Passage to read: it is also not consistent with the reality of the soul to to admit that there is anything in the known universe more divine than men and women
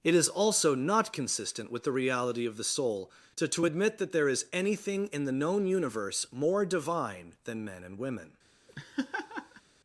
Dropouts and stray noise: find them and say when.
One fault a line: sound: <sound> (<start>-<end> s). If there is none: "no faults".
sound: laugh (8.7-9.6 s)